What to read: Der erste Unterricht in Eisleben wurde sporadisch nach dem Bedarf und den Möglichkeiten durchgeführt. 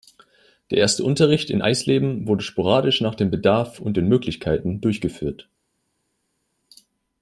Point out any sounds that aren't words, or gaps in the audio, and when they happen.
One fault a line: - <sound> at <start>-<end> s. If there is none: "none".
none